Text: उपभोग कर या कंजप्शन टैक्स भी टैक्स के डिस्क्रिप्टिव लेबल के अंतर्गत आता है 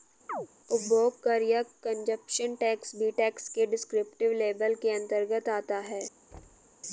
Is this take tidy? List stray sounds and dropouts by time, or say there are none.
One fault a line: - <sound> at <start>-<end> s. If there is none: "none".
- chirp at 0.3-0.5 s
- thud at 6.3-6.8 s